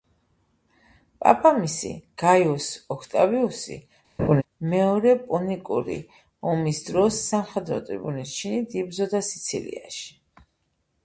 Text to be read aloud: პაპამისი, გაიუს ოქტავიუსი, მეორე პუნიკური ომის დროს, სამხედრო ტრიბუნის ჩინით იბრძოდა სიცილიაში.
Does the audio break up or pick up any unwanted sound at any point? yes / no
yes